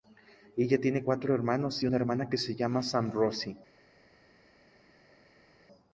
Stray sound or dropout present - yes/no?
no